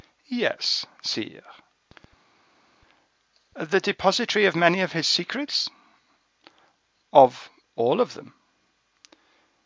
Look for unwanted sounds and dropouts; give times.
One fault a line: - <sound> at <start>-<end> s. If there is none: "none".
none